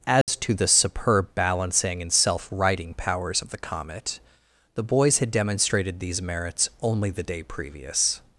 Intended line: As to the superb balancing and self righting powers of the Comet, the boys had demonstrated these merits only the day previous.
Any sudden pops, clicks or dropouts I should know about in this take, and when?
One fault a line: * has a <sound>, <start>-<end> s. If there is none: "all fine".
* has a dropout, 0.2-0.3 s